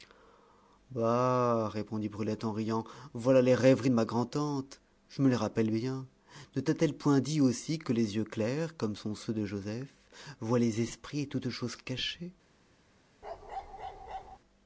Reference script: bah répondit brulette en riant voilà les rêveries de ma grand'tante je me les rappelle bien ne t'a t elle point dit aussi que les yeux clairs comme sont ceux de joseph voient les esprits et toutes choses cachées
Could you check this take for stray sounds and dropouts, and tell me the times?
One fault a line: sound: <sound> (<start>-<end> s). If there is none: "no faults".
sound: bark (13.2-14.4 s)